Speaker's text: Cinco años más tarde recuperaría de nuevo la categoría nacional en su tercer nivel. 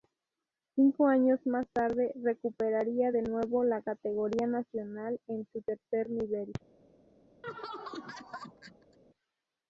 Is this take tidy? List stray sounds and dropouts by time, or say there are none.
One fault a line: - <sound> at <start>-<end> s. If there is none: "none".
- laugh at 7.4-9.0 s